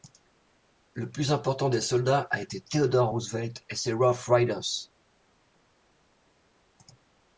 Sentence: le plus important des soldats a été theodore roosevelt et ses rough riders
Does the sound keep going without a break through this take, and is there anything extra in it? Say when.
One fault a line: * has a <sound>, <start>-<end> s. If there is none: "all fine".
all fine